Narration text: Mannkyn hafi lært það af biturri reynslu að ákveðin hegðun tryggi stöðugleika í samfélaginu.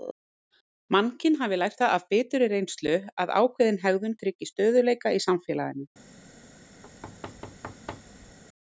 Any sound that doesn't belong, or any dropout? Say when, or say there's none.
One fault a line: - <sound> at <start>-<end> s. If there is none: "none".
- thud at 6.8-8.4 s